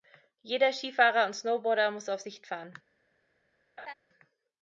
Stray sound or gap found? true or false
true